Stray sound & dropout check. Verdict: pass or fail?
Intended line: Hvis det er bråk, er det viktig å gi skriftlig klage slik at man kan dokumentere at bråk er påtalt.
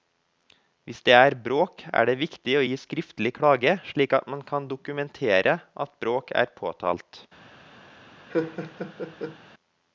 fail